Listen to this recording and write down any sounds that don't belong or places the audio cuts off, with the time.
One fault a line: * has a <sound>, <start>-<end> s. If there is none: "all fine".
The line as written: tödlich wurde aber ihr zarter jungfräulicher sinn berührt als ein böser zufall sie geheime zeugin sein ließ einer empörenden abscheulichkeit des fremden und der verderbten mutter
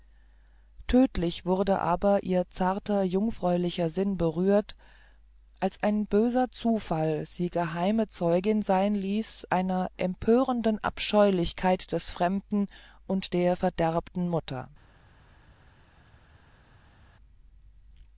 all fine